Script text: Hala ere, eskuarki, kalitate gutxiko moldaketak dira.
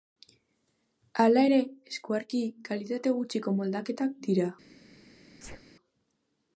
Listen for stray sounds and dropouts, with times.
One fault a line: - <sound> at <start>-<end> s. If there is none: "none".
- sneeze at 5.4-5.6 s